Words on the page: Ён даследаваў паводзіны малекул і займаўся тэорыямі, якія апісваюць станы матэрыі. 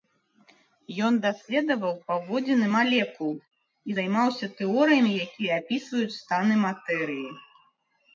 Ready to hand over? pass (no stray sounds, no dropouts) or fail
pass